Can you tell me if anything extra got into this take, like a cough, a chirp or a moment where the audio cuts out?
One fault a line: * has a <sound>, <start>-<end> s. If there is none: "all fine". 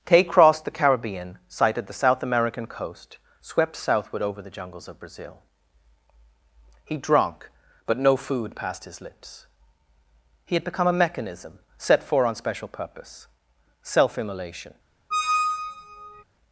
* has a squeak, 15.1-16.2 s